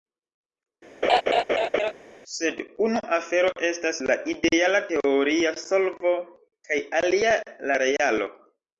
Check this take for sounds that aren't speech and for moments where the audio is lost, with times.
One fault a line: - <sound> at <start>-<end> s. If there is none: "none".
- laugh at 1.0-1.9 s